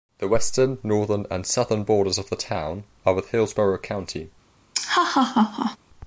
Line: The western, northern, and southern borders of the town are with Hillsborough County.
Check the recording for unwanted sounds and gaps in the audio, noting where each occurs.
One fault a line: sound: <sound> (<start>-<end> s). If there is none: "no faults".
sound: laugh (4.7-5.8 s)